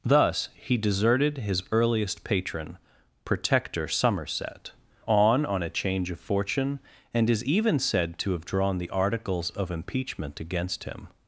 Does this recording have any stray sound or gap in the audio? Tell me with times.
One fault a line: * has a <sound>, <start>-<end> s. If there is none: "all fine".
all fine